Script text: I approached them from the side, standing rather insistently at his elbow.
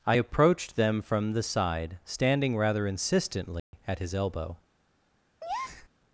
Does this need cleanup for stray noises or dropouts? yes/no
yes